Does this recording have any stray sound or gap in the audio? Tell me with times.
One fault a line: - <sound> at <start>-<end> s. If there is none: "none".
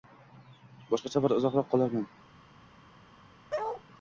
- bark at 3.5-3.8 s